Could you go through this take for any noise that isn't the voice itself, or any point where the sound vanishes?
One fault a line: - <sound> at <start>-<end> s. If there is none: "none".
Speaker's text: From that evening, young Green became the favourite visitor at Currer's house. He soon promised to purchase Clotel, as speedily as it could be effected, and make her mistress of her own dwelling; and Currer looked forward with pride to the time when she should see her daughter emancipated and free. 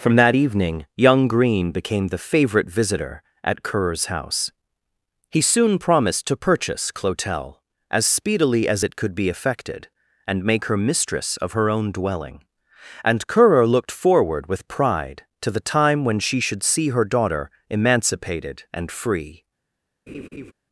- laugh at 20.1-20.5 s